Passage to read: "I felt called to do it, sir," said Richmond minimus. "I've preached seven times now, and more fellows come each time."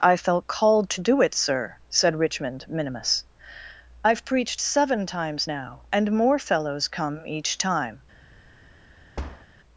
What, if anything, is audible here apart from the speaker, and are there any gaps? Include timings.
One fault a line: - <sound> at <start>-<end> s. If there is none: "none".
- thud at 9.2-9.5 s